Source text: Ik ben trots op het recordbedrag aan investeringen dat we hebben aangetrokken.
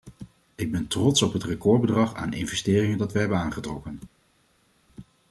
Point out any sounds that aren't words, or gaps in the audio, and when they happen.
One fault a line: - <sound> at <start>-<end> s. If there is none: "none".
none